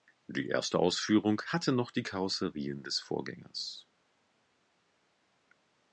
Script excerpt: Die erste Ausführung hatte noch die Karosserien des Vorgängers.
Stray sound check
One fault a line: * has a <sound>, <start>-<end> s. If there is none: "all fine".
all fine